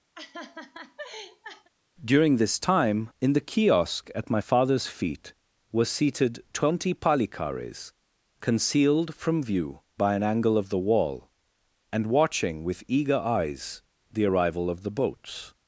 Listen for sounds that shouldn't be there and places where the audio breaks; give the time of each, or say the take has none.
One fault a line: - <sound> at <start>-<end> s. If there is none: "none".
- laugh at 0.1-1.7 s